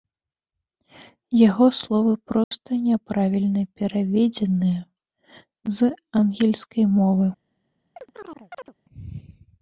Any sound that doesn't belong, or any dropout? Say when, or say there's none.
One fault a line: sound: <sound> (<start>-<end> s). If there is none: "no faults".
sound: dropout (2.4-2.5 s)
sound: chirp (8.0-8.7 s)